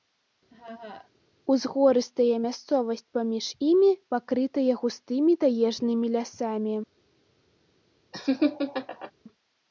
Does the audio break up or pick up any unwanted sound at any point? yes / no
yes